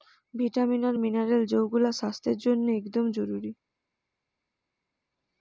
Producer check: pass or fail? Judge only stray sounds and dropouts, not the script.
pass